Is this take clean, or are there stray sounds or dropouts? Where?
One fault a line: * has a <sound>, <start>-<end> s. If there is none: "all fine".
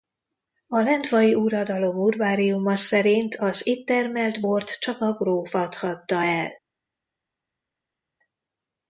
all fine